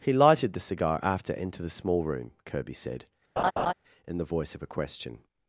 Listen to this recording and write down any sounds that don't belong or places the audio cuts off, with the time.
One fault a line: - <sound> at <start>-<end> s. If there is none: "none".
- laugh at 3.4-3.7 s